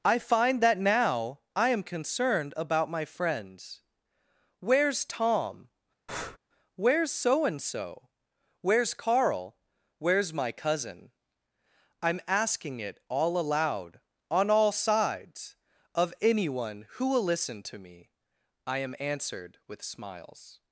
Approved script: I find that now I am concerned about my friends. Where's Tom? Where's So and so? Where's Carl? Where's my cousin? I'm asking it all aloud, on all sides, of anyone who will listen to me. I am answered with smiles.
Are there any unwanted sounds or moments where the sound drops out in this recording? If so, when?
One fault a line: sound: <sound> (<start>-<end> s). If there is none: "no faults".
sound: breath (6.1-6.4 s)